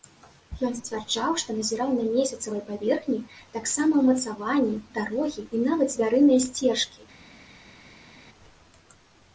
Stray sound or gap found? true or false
false